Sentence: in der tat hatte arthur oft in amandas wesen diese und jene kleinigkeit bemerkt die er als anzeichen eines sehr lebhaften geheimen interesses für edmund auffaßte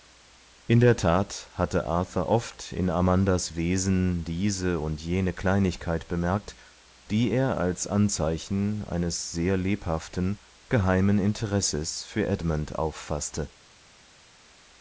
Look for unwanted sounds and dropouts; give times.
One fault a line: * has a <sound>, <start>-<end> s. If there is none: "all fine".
all fine